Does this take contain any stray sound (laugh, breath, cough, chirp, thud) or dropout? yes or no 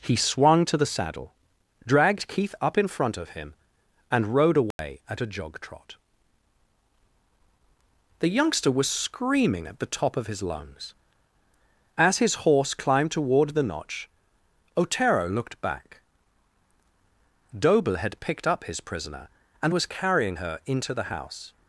yes